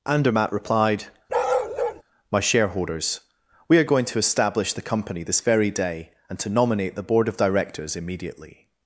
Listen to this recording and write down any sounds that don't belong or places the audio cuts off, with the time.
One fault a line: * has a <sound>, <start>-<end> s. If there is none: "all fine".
* has a bark, 1.3-2.0 s